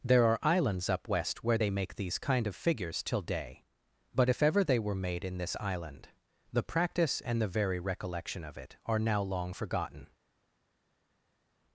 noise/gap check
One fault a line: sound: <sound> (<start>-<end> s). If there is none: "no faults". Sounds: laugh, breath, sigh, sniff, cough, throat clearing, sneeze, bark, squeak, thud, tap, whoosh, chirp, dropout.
no faults